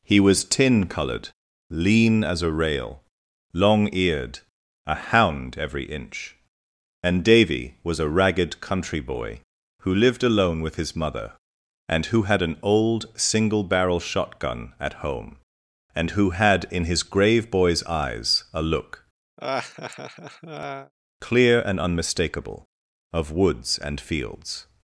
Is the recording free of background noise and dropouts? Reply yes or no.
no